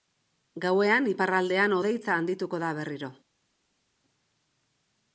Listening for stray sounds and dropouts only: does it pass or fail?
pass